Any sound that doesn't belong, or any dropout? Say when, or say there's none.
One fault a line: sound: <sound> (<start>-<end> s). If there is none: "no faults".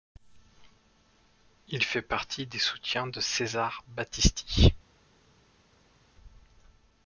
no faults